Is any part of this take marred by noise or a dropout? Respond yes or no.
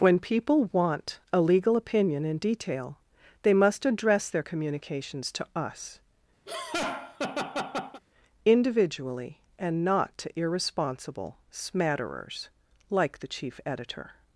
yes